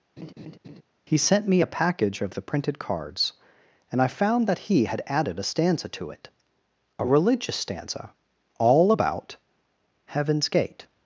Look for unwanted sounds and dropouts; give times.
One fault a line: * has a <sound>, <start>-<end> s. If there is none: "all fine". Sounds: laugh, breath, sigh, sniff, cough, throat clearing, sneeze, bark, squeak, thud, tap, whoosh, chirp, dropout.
* has a laugh, 0.2-0.8 s